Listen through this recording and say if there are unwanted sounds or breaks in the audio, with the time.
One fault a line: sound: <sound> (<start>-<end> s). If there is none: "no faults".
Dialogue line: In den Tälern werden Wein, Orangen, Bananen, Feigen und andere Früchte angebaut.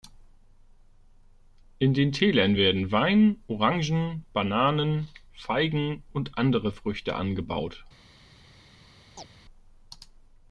sound: chirp (9.2-9.3 s)